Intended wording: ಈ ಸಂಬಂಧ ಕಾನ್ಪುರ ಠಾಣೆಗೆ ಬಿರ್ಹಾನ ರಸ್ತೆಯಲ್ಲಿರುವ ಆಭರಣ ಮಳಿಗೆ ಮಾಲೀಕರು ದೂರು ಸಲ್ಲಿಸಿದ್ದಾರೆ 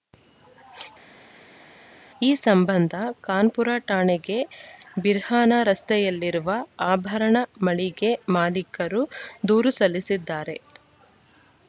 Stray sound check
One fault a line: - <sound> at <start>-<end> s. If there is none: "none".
none